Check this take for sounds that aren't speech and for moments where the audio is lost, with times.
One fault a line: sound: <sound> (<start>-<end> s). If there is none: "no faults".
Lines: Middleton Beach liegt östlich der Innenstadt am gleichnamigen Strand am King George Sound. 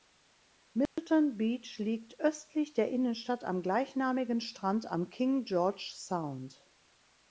sound: dropout (0.9-1.0 s)